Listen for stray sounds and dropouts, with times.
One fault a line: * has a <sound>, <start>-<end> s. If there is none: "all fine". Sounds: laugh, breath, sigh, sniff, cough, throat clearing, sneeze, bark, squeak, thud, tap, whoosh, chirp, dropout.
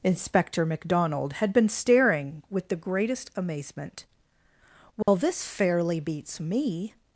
* has a dropout, 5.0-5.1 s